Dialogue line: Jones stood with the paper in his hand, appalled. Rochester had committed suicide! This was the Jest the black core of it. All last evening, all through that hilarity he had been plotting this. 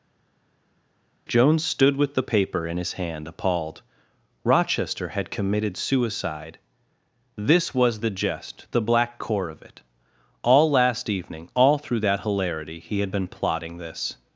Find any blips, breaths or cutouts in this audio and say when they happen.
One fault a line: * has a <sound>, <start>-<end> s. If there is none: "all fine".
all fine